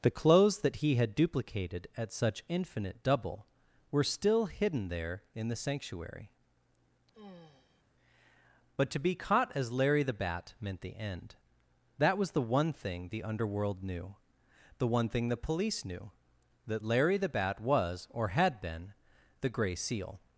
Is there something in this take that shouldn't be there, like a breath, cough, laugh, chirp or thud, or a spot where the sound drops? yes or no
yes